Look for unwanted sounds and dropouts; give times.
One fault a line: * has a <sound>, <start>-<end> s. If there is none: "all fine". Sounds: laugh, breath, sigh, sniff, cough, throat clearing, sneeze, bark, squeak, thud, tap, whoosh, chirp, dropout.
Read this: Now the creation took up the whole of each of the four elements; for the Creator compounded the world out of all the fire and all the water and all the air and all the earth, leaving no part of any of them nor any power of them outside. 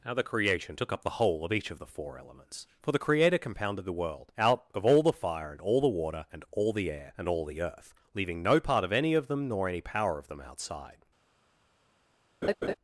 * has a laugh, 12.4-12.7 s